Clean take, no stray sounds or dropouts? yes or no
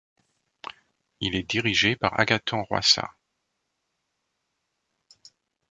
yes